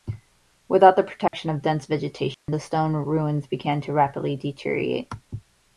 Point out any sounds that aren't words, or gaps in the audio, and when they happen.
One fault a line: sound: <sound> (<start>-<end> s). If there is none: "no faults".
sound: dropout (1.3-1.3 s)
sound: dropout (2.3-2.5 s)